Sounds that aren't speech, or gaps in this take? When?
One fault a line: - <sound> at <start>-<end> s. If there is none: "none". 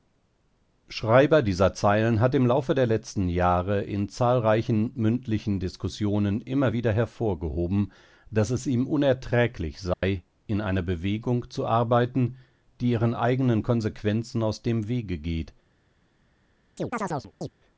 - dropout at 9.9-10.0 s
- chirp at 16.8-17.5 s